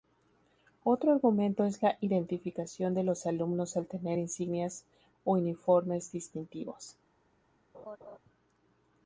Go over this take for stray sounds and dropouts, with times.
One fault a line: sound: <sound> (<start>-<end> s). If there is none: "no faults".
sound: laugh (7.7-8.2 s)